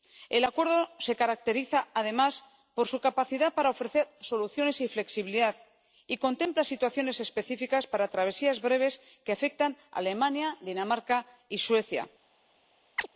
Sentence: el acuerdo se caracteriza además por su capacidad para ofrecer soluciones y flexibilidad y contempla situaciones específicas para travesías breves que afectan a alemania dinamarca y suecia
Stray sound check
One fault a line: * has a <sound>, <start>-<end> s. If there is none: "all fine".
* has a chirp, 13.0-13.1 s